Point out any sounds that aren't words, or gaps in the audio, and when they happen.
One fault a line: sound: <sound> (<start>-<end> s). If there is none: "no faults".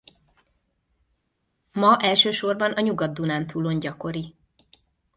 no faults